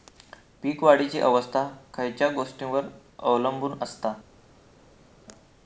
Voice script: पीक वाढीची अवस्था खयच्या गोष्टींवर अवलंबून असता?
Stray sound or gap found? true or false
false